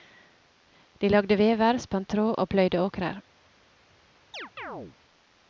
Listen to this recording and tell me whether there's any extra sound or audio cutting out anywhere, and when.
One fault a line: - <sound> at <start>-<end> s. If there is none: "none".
- chirp at 4.3-5.0 s